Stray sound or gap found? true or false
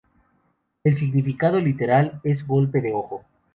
false